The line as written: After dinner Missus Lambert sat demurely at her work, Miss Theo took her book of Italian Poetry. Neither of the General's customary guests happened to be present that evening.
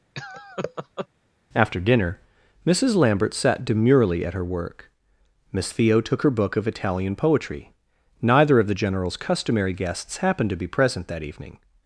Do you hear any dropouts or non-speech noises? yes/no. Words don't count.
yes